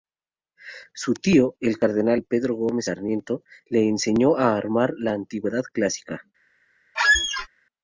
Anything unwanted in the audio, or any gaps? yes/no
yes